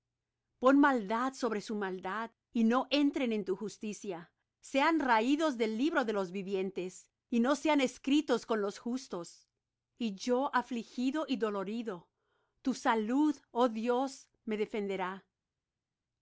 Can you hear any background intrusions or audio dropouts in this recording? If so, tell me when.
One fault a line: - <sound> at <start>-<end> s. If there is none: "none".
none